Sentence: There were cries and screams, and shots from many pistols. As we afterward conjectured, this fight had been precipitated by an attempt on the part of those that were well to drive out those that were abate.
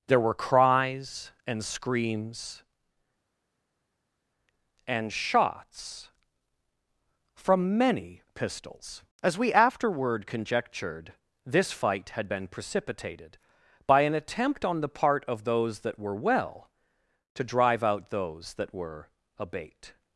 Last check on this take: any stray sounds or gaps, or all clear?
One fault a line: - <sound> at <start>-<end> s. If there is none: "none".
none